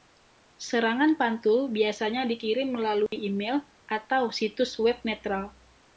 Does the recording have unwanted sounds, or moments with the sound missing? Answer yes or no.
yes